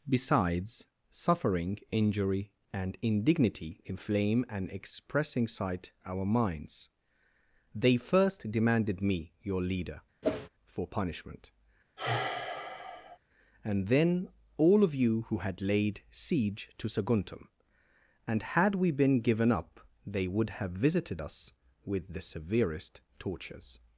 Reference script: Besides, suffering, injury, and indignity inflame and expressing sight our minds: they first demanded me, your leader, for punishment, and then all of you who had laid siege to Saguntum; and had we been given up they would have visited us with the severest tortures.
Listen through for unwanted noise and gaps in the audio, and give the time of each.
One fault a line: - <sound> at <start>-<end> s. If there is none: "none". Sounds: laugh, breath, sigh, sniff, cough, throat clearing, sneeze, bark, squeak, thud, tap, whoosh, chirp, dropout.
- whoosh at 10.2-10.5 s
- sigh at 12.0-13.2 s